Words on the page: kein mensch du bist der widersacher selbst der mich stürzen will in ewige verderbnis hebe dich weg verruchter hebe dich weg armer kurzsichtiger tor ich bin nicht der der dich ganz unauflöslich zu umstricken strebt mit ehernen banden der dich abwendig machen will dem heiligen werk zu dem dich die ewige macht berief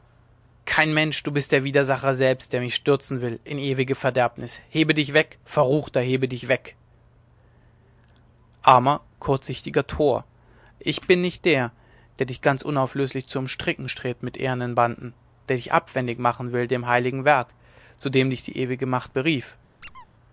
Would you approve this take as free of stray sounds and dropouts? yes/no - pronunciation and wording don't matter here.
no